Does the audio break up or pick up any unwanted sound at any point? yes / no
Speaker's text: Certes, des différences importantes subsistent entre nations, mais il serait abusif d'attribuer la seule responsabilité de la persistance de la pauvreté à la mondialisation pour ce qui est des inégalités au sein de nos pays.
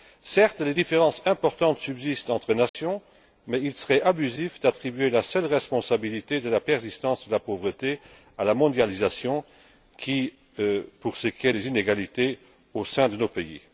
yes